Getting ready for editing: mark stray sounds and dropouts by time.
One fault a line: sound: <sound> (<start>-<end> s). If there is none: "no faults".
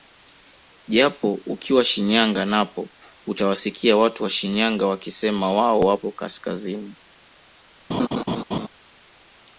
sound: laugh (7.9-8.7 s)